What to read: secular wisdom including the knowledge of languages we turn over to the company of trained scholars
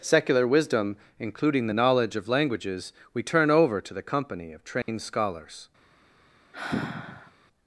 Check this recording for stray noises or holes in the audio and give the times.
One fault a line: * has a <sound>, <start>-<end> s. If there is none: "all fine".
* has a dropout, 4.8-4.9 s
* has a sigh, 6.5-7.3 s